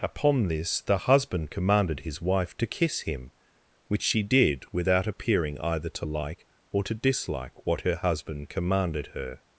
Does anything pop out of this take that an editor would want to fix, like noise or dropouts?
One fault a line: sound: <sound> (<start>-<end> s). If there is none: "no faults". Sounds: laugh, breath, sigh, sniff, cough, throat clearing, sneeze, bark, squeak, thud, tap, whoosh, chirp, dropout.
no faults